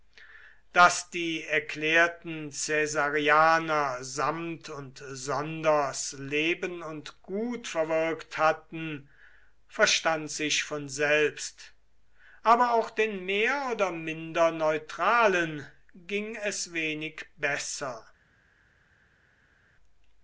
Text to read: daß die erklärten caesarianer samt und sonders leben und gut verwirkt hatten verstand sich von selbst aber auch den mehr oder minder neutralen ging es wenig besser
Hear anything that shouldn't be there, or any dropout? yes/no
no